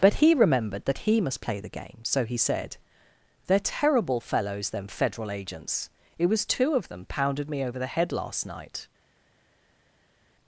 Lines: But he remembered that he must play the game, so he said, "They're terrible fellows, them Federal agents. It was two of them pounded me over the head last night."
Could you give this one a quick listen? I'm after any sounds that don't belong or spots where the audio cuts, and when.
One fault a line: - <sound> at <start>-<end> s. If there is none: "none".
none